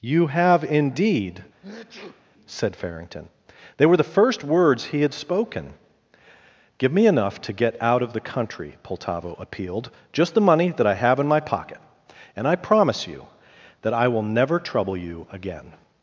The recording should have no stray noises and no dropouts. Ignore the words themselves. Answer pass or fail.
fail